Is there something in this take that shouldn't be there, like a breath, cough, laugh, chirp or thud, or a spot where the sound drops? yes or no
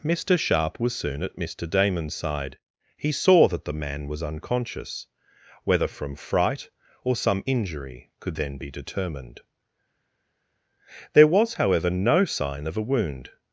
no